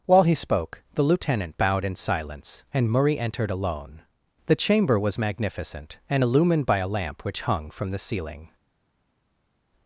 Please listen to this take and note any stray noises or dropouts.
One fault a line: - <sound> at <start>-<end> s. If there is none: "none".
none